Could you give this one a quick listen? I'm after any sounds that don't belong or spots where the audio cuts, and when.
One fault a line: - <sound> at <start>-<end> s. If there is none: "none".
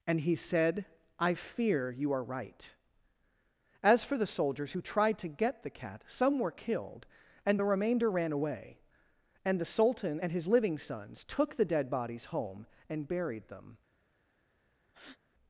- breath at 14.9-15.2 s